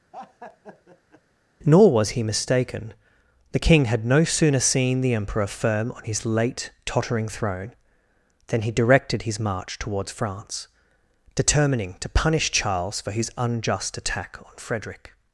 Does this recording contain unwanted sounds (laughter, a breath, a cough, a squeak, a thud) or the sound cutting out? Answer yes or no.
yes